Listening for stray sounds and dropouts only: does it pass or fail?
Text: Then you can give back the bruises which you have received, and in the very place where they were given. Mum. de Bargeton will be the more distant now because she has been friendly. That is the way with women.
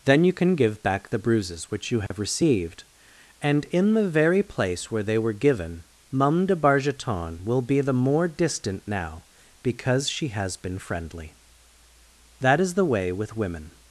fail